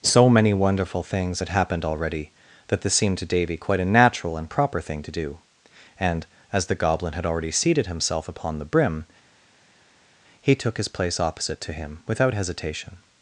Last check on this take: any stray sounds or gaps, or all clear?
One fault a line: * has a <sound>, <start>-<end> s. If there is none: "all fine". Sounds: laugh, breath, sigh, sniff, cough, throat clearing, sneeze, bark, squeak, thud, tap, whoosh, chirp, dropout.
all fine